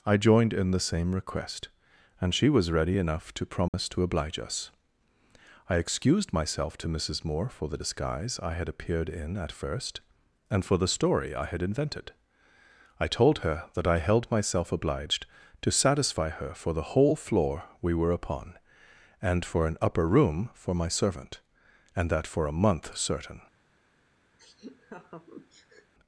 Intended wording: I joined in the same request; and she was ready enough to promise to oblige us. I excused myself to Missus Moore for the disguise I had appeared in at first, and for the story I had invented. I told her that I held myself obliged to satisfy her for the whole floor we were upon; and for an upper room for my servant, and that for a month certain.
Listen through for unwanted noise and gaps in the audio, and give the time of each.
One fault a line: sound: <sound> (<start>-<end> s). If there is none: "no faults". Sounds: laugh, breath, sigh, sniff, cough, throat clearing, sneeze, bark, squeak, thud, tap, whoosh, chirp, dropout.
sound: dropout (3.7-3.7 s)
sound: laugh (24.4-25.9 s)